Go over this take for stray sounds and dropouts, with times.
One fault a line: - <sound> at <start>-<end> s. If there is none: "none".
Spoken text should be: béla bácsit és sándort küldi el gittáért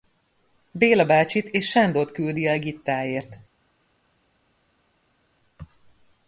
none